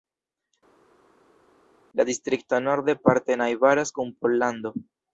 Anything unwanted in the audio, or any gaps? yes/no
no